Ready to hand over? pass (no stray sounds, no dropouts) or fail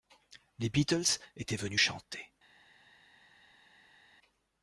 pass